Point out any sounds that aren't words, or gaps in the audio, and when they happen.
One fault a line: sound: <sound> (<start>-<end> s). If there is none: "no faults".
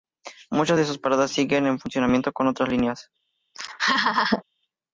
sound: laugh (3.5-4.4 s)